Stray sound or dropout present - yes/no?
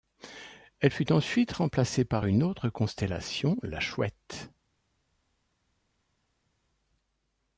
no